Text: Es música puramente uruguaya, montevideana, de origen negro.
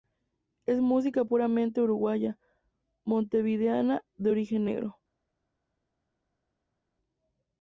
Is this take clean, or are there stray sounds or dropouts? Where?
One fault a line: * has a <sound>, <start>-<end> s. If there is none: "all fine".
all fine